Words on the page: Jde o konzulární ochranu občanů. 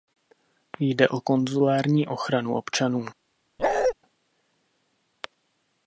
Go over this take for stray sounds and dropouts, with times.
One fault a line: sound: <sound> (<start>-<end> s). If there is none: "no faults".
sound: bark (3.6-3.9 s)